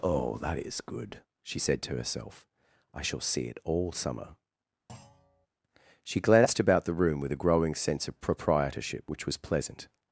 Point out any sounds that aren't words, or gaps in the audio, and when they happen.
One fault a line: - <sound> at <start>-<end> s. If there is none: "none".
- thud at 4.9-5.5 s